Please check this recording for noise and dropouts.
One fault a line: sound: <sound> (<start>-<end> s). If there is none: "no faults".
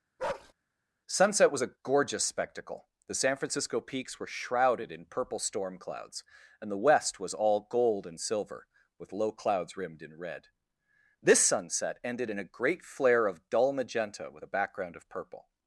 sound: bark (0.2-0.5 s)